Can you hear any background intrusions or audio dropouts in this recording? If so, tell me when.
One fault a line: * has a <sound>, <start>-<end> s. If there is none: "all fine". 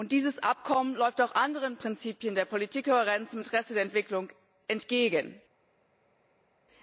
all fine